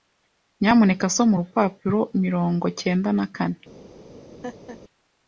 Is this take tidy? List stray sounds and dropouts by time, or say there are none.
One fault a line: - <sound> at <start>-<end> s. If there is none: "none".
- laugh at 4.4-4.8 s